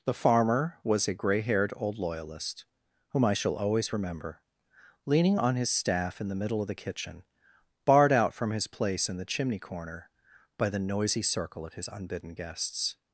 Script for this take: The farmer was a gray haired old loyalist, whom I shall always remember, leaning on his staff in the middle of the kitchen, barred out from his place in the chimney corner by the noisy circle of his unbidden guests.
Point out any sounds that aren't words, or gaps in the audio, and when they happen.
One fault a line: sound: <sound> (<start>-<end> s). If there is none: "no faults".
no faults